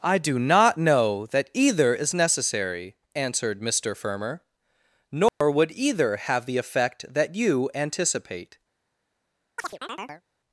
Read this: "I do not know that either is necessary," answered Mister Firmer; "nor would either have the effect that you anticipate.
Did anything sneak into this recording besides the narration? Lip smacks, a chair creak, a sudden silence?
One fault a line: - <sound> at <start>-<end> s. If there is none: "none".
- dropout at 5.3-5.4 s
- chirp at 9.6-10.2 s